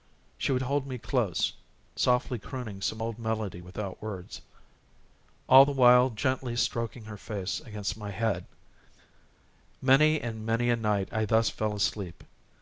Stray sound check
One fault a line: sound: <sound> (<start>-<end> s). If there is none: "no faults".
no faults